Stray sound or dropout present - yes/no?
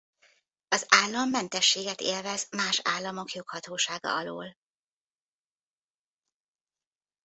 no